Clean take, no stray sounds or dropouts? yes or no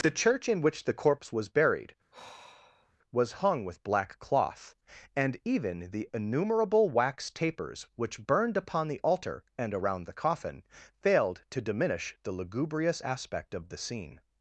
no